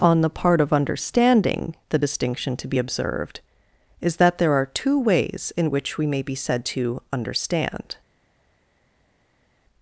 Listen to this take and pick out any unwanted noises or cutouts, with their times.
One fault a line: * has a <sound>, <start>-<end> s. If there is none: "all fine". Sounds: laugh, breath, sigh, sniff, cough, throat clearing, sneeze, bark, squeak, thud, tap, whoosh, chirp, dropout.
all fine